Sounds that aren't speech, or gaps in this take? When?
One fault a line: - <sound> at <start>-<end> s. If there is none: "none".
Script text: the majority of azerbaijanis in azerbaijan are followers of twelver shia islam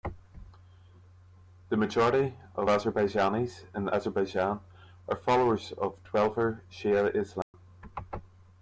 - dropout at 7.4-7.5 s